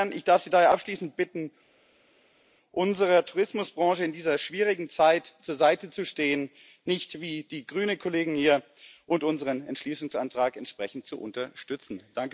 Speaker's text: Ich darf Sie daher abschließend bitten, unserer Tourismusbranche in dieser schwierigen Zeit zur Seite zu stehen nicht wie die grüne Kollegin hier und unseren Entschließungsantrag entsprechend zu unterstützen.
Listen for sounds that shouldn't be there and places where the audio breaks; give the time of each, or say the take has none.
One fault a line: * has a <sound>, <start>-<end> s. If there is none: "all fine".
all fine